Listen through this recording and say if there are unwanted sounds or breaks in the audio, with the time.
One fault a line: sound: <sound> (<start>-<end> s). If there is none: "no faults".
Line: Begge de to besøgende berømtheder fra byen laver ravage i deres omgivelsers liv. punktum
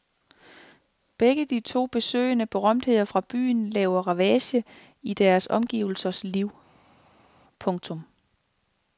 no faults